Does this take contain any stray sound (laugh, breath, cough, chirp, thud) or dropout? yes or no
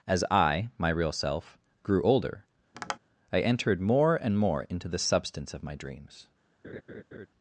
yes